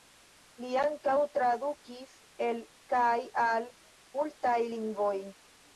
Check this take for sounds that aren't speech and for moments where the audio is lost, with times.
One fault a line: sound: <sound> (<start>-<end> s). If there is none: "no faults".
no faults